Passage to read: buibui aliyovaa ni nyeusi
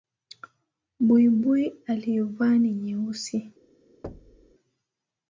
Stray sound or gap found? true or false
true